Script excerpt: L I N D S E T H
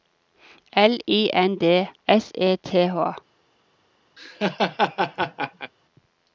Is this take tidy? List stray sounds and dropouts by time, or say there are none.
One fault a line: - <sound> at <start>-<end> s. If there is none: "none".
- laugh at 4.2-5.7 s